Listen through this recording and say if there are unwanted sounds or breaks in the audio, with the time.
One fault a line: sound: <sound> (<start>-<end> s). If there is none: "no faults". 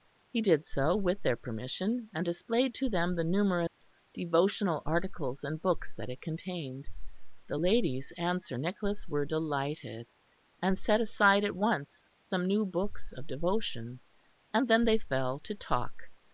sound: dropout (3.7-3.8 s)